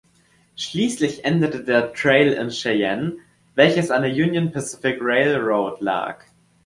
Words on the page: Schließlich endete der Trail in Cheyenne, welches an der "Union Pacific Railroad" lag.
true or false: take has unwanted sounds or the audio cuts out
false